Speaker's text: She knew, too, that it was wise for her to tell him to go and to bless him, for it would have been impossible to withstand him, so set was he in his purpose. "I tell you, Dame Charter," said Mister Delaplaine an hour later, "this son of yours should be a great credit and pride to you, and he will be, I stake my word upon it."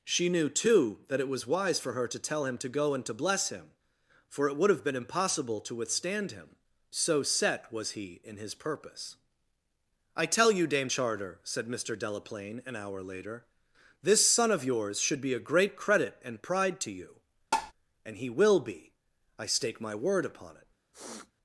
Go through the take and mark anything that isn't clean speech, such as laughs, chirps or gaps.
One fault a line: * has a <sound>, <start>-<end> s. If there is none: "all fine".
* has a tap, 17.5-17.7 s
* has a sniff, 20.9-21.3 s